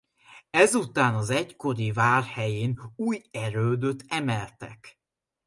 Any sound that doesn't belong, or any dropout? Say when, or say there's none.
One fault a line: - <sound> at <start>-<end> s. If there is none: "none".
none